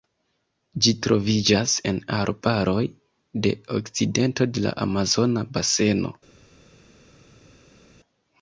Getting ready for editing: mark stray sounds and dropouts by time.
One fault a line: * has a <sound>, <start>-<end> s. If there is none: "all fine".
all fine